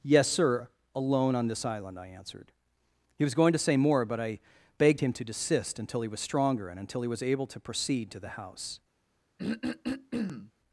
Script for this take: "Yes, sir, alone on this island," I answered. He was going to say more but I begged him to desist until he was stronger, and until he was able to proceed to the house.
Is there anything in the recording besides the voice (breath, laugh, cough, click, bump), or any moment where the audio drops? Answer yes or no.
yes